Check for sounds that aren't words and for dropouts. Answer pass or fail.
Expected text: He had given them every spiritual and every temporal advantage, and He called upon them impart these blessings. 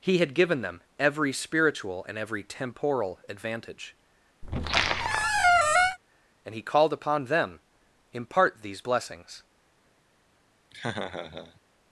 fail